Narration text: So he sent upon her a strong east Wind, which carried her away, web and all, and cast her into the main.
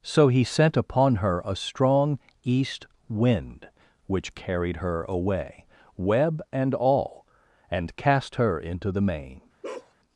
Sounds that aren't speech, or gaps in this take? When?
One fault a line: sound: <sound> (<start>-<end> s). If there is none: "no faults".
sound: bark (9.6-9.9 s)